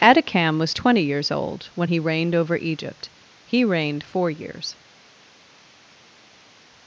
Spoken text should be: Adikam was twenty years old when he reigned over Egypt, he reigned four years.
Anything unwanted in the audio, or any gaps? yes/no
no